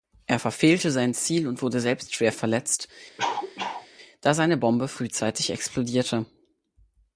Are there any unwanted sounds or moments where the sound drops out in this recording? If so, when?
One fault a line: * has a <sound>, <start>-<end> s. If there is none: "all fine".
* has a cough, 3.2-3.9 s